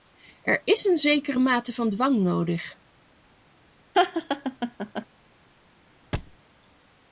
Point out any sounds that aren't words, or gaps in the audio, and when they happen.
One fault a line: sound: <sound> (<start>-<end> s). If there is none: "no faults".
sound: laugh (3.9-5.1 s)
sound: thud (6.1-6.4 s)